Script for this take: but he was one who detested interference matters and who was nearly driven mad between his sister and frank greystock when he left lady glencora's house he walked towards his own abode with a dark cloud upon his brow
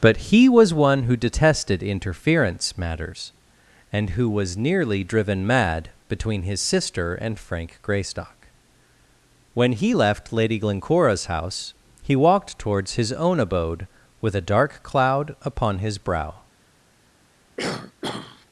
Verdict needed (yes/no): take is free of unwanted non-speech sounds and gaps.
no